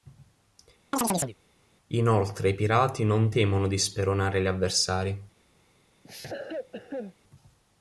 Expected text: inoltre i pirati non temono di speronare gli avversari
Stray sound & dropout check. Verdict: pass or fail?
fail